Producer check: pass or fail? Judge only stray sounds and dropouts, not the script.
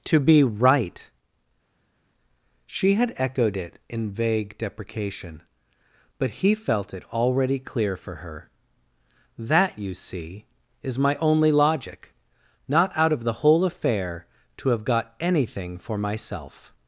pass